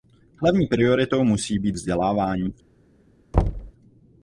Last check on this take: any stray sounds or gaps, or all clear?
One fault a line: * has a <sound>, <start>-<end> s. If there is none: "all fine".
* has a thud, 3.3-3.7 s